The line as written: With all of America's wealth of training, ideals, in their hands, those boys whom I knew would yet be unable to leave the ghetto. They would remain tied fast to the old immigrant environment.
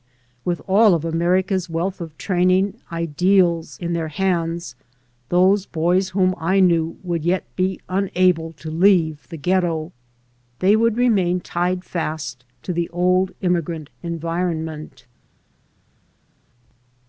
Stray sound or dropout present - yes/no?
no